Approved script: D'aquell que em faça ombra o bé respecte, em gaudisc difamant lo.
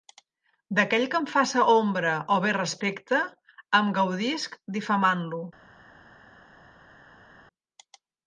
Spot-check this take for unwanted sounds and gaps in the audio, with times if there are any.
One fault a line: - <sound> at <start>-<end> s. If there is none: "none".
none